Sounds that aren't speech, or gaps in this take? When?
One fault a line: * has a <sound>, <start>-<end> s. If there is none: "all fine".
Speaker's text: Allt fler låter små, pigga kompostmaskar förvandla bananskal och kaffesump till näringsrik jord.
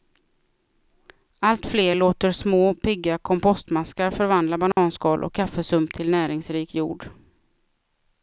* has a dropout, 4.7-4.8 s